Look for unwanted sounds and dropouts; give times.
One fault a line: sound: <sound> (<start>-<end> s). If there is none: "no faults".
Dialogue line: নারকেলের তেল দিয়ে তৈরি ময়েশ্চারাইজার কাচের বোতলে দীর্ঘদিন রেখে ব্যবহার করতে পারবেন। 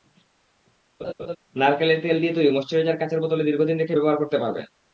sound: laugh (1.0-1.4 s)